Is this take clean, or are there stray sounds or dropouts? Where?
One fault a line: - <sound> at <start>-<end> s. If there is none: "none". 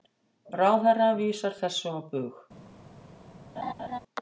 - laugh at 3.6-4.0 s